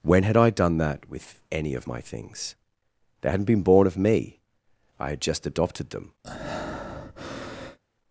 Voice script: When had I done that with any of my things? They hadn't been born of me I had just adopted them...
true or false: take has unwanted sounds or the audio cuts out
true